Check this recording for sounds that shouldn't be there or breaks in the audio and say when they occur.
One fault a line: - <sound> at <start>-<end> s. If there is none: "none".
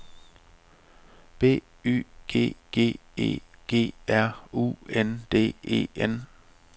none